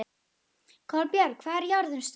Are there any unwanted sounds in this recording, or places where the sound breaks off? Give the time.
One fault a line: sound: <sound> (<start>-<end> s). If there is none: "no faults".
no faults